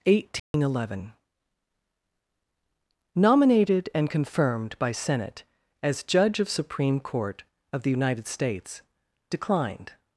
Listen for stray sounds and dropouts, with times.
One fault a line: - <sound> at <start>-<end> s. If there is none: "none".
- dropout at 0.4-0.5 s